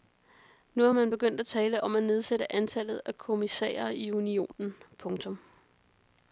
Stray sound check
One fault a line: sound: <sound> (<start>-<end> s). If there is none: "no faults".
no faults